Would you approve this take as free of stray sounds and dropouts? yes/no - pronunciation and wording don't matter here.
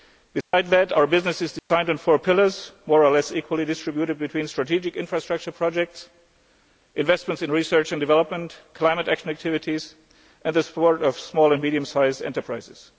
no